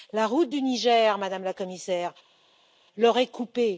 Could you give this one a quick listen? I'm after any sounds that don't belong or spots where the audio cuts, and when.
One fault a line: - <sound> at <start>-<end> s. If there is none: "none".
none